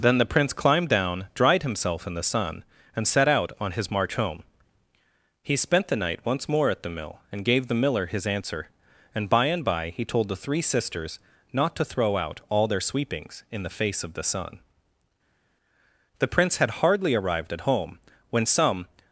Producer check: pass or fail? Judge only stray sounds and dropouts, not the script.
pass